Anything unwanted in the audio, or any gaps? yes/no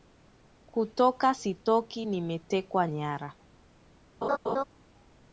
yes